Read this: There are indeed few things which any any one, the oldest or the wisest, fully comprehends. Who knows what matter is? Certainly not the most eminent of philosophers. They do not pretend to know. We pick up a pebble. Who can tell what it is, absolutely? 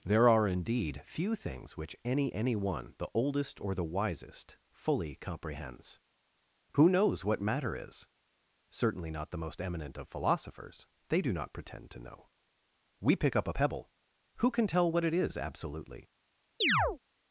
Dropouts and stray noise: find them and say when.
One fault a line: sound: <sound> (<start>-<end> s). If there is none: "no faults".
sound: chirp (16.6-17.0 s)